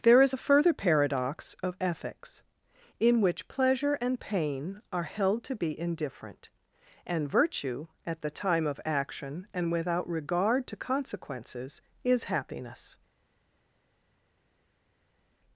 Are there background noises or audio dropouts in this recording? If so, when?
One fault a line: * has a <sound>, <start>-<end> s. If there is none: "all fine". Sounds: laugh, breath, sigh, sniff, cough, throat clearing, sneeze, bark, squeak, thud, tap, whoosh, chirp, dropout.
all fine